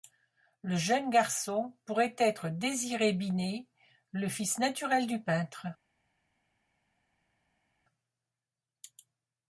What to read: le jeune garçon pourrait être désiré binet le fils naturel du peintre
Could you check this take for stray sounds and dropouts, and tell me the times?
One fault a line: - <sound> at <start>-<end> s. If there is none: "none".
none